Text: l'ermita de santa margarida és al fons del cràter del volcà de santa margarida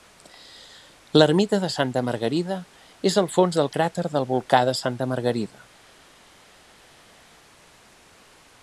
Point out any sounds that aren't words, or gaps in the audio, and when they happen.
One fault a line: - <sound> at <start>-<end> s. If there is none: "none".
none